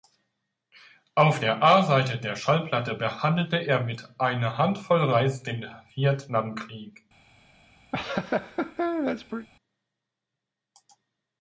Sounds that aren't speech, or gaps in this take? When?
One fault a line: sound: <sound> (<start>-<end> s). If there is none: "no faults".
sound: laugh (7.9-9.5 s)